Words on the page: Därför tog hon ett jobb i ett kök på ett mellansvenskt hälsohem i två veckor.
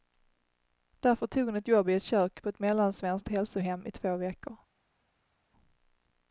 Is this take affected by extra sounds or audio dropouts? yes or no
no